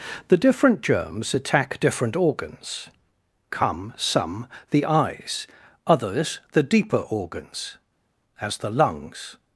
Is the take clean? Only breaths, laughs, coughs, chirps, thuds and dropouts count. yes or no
yes